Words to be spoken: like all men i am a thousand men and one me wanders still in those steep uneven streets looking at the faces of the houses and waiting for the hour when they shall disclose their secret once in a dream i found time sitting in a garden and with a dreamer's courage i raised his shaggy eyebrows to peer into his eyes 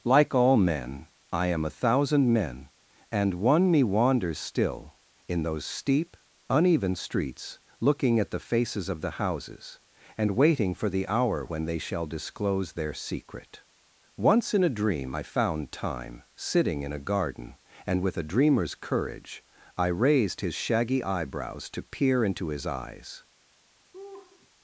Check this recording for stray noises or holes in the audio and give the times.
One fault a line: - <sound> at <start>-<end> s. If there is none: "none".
- laugh at 23.9-24.5 s